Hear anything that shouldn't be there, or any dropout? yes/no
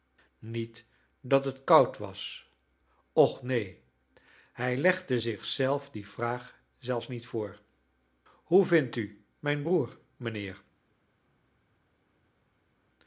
no